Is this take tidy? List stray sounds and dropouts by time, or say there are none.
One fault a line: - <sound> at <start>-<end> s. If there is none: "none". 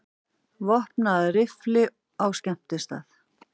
none